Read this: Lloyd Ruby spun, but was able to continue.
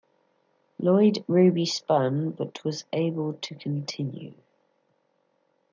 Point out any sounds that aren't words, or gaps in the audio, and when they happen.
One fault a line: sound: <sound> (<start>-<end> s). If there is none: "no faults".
no faults